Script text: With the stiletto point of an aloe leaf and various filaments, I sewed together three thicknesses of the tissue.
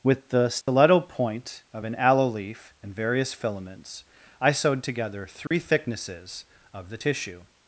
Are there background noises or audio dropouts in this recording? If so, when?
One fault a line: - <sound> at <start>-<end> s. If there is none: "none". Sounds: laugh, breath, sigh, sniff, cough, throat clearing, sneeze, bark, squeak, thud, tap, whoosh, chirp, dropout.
- dropout at 0.6-0.7 s
- dropout at 5.5-5.5 s